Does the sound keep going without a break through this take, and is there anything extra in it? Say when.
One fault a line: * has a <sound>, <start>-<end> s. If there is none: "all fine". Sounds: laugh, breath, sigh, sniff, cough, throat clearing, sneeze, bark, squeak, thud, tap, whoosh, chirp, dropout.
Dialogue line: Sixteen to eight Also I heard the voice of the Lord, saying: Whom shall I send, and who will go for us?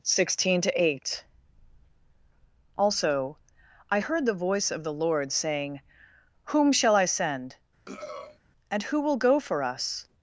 * has a throat clearing, 7.9-8.4 s